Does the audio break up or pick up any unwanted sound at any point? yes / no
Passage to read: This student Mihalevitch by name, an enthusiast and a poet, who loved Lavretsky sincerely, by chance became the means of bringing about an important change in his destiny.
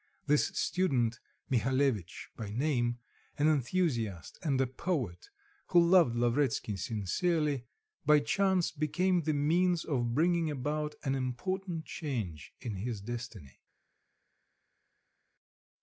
no